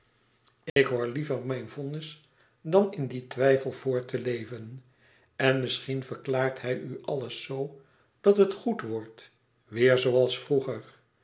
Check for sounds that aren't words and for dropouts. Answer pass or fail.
fail